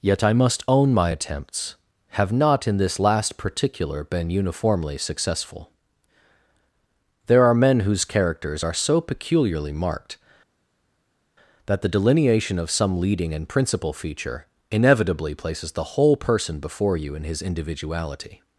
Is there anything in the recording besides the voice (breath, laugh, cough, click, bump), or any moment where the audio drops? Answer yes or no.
no